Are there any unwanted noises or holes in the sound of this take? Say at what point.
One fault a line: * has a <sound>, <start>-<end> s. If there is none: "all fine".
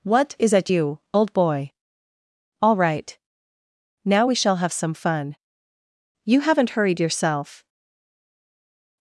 all fine